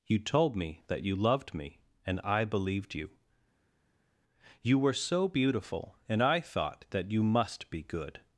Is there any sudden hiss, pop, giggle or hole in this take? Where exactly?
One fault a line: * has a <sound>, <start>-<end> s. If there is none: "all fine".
all fine